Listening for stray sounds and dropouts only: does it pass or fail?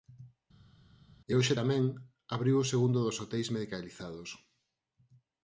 pass